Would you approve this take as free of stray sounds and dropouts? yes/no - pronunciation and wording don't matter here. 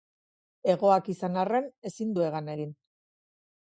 yes